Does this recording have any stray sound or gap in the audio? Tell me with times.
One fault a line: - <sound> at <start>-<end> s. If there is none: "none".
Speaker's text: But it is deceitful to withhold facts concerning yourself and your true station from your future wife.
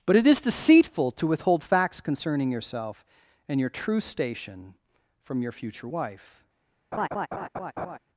- laugh at 6.9-8.0 s